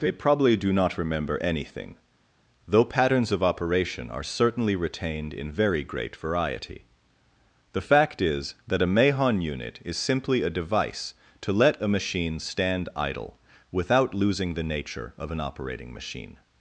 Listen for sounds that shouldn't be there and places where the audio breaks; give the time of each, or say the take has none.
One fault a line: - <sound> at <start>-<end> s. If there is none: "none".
none